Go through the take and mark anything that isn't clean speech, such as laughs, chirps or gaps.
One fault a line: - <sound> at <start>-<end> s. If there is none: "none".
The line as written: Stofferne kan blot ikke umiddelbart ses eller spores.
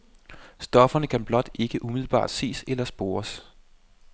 none